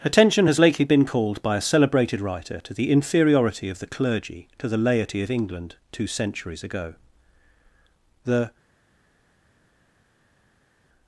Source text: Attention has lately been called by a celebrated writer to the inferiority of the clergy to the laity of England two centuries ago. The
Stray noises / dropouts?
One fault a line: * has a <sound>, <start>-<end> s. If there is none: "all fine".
all fine